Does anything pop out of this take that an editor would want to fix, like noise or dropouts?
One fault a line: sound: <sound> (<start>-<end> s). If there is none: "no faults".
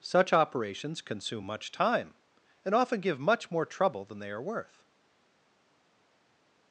no faults